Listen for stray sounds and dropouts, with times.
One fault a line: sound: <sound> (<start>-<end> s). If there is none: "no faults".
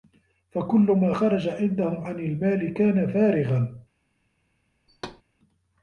sound: thud (4.9-5.2 s)